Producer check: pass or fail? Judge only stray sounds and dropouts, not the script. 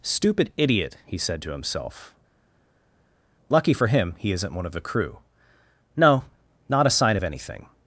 pass